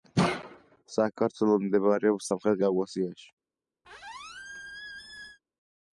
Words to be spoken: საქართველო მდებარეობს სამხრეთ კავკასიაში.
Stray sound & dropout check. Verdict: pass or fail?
fail